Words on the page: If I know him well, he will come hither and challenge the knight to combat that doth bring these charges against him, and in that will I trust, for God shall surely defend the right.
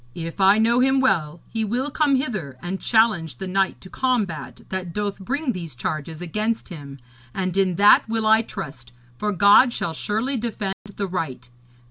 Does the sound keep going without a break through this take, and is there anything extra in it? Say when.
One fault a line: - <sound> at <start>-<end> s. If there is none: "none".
- dropout at 10.7-10.9 s